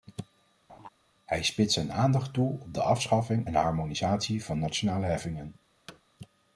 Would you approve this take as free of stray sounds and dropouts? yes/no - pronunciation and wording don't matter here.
no